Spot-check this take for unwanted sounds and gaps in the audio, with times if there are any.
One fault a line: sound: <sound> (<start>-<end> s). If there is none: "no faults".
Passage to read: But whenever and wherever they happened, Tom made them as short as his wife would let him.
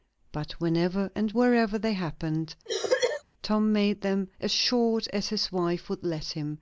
sound: cough (2.7-3.2 s)